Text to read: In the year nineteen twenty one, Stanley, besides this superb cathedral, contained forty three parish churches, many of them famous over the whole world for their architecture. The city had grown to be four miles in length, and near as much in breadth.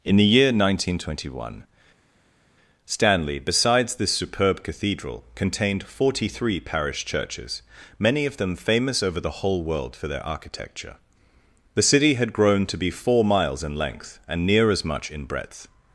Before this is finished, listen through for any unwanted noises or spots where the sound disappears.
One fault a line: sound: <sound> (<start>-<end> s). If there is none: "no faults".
no faults